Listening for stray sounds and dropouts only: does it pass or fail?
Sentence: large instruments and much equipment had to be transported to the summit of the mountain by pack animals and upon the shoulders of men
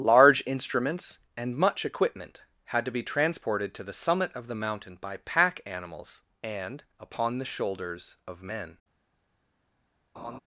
fail